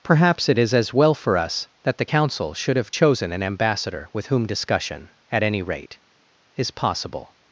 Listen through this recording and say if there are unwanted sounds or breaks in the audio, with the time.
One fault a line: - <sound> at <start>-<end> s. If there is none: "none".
none